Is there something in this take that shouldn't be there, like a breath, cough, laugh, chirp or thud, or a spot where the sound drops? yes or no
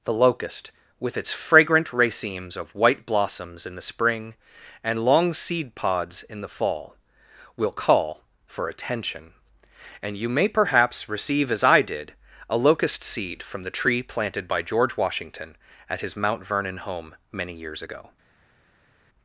no